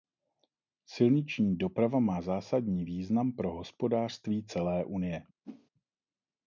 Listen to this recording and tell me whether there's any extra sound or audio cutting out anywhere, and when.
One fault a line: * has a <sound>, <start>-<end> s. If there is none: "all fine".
* has a whoosh, 5.4-5.7 s